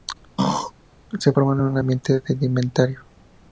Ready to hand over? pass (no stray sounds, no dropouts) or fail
fail